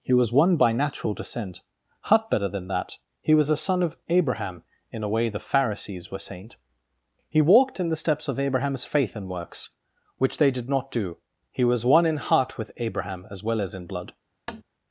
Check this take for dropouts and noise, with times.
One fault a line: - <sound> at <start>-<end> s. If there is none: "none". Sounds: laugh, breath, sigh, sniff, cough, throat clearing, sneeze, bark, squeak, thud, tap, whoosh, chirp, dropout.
- tap at 14.5-14.6 s